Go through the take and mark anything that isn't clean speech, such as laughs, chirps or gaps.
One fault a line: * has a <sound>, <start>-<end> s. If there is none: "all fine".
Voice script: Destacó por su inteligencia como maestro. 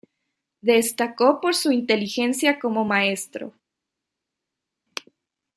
all fine